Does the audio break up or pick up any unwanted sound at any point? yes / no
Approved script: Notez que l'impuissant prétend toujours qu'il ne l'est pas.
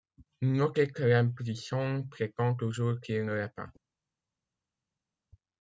no